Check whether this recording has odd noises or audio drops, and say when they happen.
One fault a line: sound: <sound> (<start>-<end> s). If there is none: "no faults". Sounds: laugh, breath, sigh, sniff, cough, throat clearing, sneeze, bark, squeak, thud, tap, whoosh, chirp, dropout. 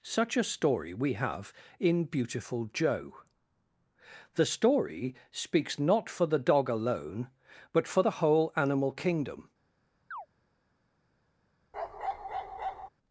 sound: chirp (10.1-10.3 s)
sound: bark (11.7-12.9 s)